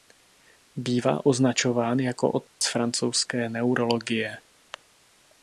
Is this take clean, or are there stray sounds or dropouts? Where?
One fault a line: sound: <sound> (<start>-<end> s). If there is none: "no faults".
sound: dropout (2.5-2.6 s)